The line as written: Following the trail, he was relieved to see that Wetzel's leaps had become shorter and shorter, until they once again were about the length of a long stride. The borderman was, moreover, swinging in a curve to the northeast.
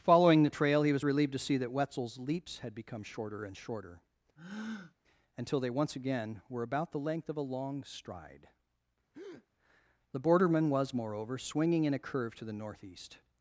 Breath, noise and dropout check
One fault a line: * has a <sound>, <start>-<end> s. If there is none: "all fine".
* has a breath, 4.4-4.9 s
* has a breath, 9.1-9.5 s